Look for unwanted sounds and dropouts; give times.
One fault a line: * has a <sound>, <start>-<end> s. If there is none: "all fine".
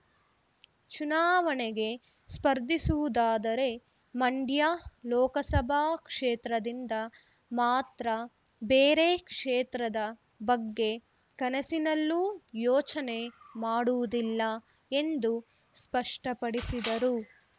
all fine